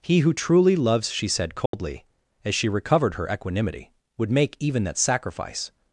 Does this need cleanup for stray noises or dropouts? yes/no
yes